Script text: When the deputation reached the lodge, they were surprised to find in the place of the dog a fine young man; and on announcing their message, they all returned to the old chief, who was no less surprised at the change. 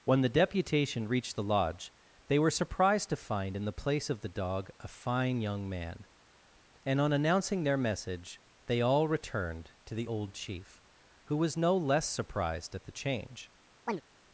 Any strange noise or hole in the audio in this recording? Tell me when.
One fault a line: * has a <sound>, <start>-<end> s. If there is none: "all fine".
* has a chirp, 13.9-14.0 s